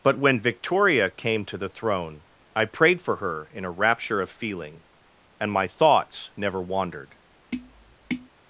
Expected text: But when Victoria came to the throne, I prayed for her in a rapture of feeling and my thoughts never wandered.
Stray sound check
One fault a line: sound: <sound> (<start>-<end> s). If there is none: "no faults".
sound: tap (7.5-8.3 s)